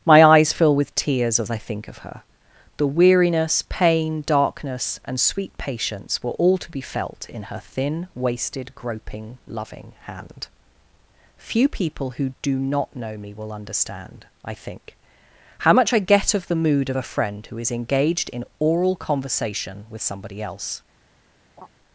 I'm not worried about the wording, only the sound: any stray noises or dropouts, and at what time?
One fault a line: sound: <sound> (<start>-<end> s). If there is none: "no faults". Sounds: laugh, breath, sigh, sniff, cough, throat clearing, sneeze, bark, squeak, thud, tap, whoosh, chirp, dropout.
sound: laugh (21.6-21.7 s)